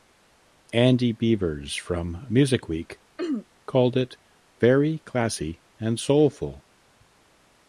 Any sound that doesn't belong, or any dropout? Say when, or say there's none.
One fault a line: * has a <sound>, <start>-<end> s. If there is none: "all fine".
* has a throat clearing, 3.2-3.5 s